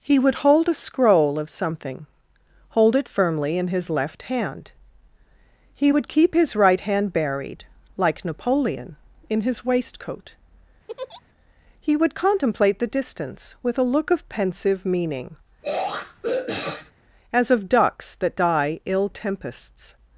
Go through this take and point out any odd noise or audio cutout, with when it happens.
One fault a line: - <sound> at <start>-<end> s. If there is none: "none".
- laugh at 10.9-11.2 s
- throat clearing at 15.6-16.9 s